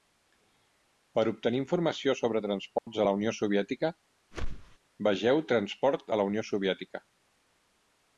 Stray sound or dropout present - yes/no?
yes